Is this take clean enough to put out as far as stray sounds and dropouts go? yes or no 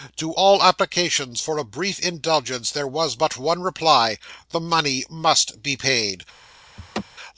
no